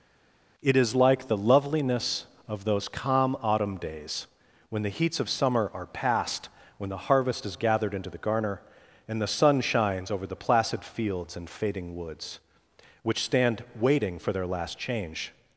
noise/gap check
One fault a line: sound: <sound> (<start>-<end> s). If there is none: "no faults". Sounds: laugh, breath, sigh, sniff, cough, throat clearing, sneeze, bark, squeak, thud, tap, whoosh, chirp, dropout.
no faults